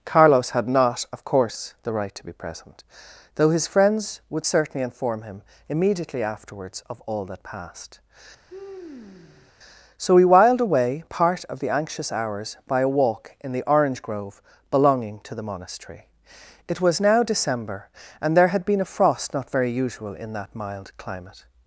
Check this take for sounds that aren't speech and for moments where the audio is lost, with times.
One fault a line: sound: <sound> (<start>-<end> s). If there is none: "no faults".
sound: sigh (8.5-9.5 s)